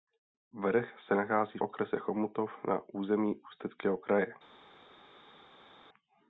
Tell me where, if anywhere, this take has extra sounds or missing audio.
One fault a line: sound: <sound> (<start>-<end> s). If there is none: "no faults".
no faults